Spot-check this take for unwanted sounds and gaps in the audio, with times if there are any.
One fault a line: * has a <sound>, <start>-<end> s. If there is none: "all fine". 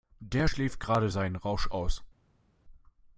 all fine